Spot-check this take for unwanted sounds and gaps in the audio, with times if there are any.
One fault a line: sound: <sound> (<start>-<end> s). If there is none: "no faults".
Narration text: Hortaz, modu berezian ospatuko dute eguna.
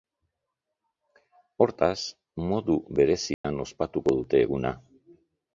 sound: dropout (3.3-3.4 s)